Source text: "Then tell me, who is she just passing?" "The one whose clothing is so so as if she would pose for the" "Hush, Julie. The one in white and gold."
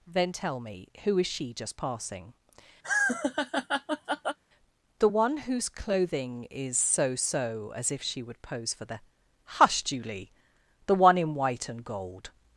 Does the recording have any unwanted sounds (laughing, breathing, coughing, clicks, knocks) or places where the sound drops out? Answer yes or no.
yes